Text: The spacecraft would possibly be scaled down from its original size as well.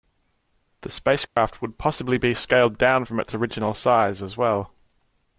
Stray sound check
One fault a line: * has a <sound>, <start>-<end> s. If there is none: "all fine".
* has a dropout, 1.3-1.4 s